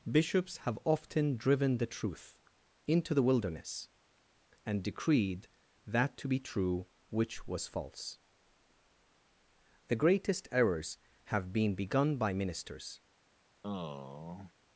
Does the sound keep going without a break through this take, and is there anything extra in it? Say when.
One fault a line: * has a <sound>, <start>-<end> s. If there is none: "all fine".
* has a sigh, 13.6-14.5 s